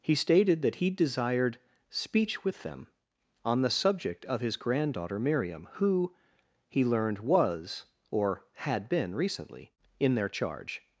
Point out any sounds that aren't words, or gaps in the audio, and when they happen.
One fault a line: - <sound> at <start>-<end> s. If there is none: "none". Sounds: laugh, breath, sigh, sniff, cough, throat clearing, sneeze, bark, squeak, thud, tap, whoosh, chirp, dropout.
none